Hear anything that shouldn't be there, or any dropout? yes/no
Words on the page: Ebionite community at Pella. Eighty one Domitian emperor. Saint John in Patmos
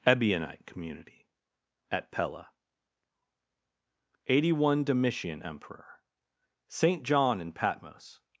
no